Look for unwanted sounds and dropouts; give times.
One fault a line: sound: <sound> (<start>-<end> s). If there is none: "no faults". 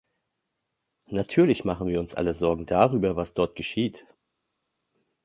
no faults